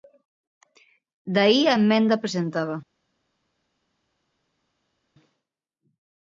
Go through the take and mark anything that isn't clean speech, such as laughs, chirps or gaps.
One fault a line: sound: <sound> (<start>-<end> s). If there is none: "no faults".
no faults